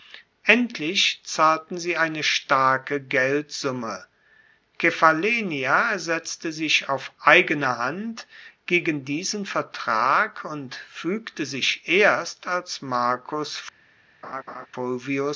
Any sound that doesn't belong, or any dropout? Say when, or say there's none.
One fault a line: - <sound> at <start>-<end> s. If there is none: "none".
- laugh at 14.2-14.7 s